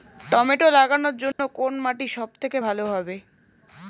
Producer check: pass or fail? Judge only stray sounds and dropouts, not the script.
fail